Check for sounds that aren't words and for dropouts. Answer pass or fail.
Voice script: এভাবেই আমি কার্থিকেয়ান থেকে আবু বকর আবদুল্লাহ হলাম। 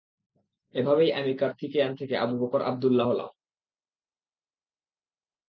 pass